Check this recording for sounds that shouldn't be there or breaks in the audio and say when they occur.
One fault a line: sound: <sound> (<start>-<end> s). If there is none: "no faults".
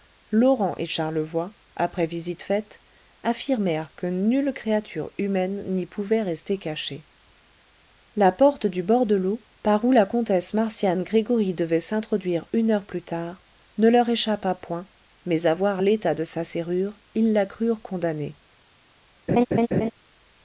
sound: laugh (19.3-19.9 s)